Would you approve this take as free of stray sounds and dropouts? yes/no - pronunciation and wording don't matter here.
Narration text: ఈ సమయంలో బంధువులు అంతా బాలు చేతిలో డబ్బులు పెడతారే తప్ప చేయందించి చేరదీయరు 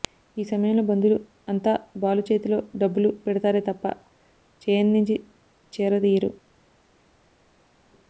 yes